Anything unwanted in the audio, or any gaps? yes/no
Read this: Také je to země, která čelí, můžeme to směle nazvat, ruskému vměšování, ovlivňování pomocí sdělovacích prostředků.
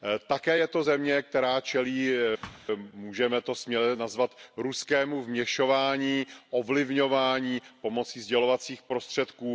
yes